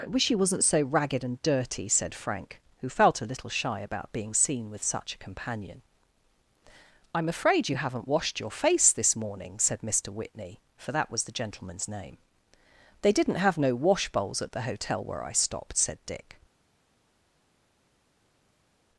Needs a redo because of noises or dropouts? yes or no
no